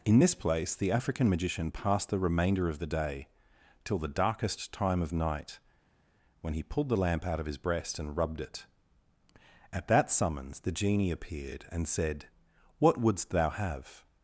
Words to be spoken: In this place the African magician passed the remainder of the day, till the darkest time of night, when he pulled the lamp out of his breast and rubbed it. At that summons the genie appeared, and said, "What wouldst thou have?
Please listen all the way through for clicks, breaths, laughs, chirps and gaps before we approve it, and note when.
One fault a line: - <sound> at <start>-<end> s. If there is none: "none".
none